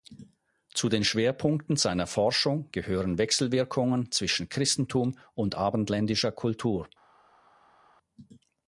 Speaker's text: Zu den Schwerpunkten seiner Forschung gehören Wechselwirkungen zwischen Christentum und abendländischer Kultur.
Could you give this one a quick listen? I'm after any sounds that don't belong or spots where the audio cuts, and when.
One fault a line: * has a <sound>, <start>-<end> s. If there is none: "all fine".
all fine